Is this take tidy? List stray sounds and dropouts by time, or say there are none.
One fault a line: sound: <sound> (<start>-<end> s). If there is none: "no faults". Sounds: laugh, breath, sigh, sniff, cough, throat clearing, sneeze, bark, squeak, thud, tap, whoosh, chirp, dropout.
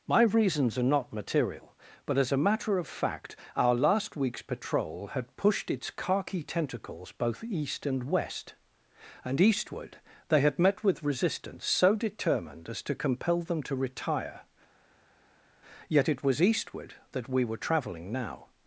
no faults